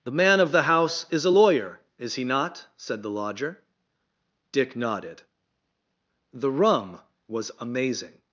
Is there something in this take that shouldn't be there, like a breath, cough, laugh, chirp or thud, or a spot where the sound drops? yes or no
no